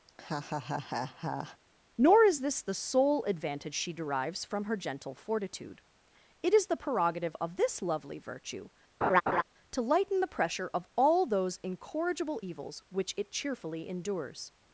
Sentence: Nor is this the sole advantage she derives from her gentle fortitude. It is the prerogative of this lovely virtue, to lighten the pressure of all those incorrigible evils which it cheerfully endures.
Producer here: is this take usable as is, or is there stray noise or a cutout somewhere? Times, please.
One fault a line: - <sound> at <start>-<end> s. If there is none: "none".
- laugh at 0.1-1.6 s
- laugh at 9.0-9.4 s